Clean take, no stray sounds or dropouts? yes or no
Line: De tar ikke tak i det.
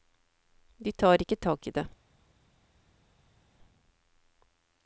yes